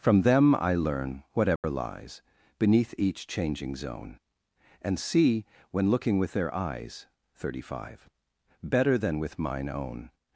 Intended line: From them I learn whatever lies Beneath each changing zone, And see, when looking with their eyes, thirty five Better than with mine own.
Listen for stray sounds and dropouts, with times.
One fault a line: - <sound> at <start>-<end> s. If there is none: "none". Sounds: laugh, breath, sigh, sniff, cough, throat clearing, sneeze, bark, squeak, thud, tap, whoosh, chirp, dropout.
- dropout at 1.6-1.6 s